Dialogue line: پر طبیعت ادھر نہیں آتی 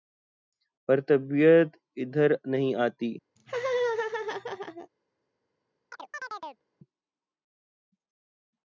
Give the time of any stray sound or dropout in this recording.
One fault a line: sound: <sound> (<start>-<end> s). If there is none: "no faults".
sound: laugh (3.4-4.9 s)
sound: chirp (5.9-6.6 s)